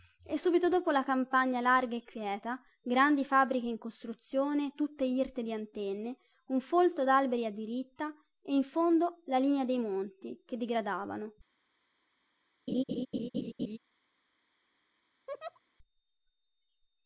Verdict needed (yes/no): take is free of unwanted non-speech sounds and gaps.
no